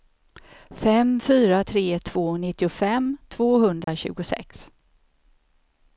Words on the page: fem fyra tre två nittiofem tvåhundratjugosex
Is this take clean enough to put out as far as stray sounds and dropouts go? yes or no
no